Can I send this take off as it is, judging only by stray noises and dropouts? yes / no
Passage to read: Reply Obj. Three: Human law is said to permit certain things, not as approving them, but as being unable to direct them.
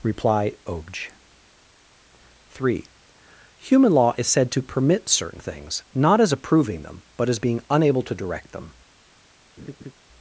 no